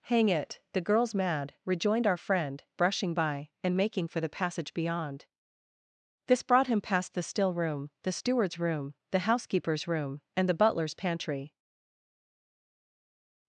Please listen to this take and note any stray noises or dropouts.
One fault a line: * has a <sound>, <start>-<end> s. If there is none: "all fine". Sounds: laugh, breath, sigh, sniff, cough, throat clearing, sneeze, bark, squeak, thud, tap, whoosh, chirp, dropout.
all fine